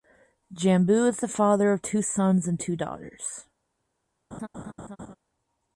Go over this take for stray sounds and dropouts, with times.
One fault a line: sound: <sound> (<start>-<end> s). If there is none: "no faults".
sound: laugh (4.3-5.2 s)